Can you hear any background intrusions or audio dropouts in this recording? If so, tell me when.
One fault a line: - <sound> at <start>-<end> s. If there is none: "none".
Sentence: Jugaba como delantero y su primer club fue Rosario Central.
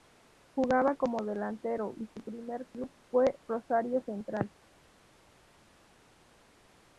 none